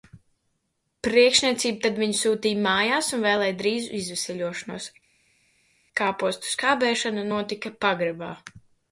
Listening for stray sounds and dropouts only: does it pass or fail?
pass